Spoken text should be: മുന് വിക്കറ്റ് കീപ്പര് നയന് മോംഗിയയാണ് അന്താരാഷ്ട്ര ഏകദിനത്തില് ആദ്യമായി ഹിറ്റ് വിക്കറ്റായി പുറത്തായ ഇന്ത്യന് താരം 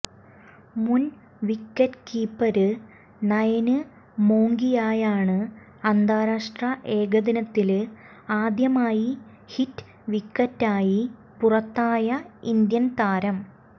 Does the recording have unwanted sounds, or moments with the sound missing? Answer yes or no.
no